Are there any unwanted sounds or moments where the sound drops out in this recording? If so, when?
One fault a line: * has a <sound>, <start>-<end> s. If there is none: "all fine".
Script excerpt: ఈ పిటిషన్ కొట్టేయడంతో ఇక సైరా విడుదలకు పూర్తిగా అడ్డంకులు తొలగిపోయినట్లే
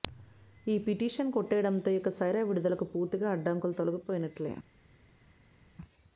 all fine